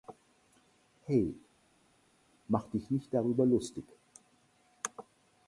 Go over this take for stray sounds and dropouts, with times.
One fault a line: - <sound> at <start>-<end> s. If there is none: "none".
none